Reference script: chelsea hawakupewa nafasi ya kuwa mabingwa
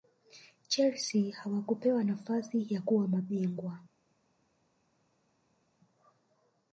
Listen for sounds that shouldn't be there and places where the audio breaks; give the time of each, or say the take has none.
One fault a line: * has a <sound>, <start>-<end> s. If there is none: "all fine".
all fine